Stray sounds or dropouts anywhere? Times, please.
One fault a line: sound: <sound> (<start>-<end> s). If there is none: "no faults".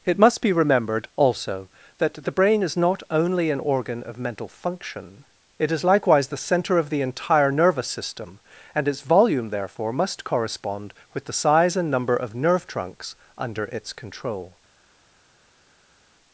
no faults